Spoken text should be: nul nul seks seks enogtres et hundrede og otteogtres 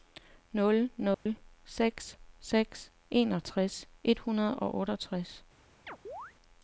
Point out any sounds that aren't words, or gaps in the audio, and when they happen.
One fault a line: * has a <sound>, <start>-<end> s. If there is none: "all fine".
* has a dropout, 1.1-1.3 s
* has a chirp, 5.9-6.3 s